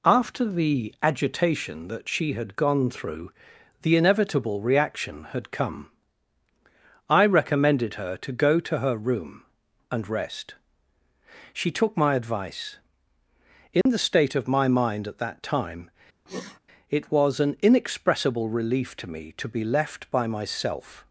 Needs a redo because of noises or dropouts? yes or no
yes